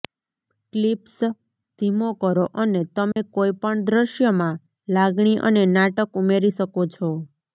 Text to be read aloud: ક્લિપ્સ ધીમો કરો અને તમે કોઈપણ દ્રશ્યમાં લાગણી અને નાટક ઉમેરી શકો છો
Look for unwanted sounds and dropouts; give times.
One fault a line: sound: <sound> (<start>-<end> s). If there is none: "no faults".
sound: dropout (3.1-3.2 s)